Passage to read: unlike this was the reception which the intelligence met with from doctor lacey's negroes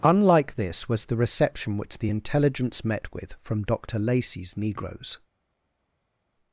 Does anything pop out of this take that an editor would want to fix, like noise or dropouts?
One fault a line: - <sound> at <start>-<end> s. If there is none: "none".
none